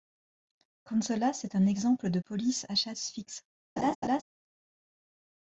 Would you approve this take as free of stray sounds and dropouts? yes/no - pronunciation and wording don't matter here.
no